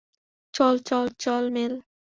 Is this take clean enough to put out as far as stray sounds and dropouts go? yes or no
yes